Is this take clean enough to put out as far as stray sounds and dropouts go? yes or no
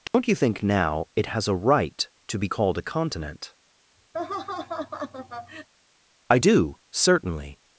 no